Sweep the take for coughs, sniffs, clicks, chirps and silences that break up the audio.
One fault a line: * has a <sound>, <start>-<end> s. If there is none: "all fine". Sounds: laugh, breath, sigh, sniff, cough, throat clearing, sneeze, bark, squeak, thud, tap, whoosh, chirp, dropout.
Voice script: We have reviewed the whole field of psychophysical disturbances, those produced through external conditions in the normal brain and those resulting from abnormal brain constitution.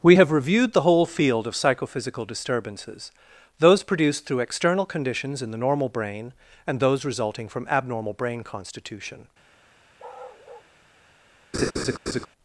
* has a bark, 10.0-10.7 s
* has a laugh, 11.5-12.3 s